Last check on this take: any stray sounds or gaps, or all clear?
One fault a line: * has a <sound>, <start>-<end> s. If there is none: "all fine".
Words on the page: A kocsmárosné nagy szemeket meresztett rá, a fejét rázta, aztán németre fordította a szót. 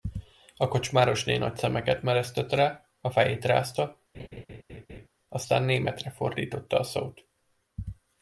* has a laugh, 4.1-5.1 s